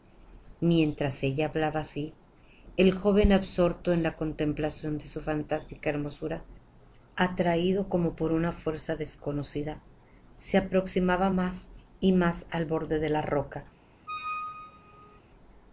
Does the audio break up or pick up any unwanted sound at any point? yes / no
yes